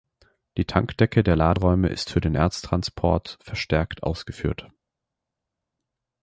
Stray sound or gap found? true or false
false